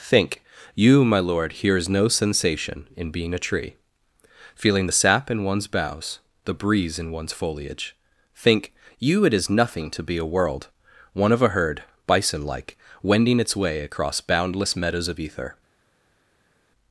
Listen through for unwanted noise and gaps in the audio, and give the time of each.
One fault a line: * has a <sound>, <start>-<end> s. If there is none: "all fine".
all fine